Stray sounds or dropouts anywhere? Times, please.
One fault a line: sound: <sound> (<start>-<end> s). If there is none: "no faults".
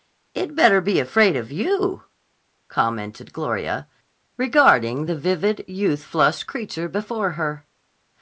no faults